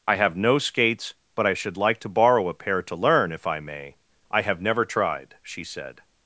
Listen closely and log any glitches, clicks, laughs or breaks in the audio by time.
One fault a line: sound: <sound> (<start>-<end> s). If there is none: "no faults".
no faults